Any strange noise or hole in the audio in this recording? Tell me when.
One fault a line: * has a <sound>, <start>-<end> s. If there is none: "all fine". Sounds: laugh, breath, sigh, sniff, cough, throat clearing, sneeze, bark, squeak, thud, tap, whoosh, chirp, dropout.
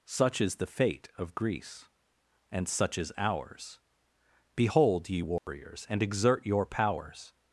* has a dropout, 5.4-5.5 s